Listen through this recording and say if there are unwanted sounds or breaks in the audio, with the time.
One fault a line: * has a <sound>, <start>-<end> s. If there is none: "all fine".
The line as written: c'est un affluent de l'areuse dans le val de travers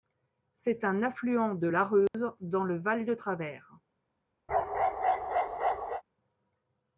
* has a dropout, 2.1-2.1 s
* has a bark, 4.5-6.0 s